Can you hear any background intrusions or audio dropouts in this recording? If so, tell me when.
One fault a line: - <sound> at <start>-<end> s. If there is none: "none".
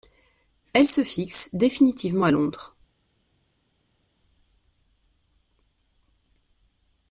none